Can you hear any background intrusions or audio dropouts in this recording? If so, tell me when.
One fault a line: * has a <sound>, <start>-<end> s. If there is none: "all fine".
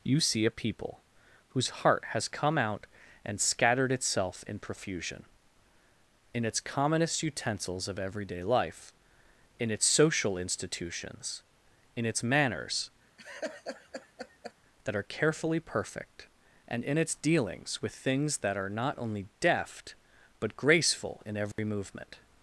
* has a laugh, 13.2-14.5 s
* has a dropout, 21.5-21.6 s